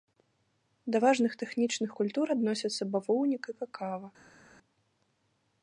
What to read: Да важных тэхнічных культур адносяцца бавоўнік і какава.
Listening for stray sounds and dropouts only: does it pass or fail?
pass